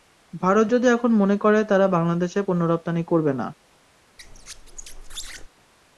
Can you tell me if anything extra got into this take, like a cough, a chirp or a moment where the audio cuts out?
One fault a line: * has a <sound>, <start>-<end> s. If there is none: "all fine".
* has a squeak, 4.2-5.5 s